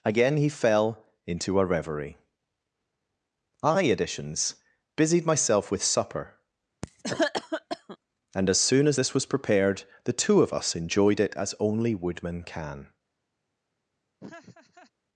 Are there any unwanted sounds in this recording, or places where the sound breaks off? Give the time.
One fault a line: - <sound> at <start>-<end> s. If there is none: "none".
- cough at 6.8-8.0 s
- laugh at 14.2-14.9 s